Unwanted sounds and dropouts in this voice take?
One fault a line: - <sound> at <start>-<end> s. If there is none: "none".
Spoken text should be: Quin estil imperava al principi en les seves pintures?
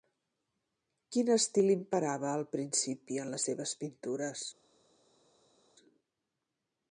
none